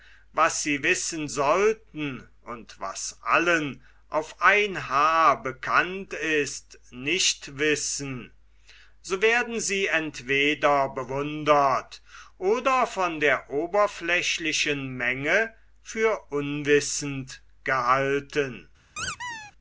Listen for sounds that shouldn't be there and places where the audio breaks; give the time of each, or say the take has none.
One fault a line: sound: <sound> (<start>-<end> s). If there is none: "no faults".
sound: squeak (19.0-19.5 s)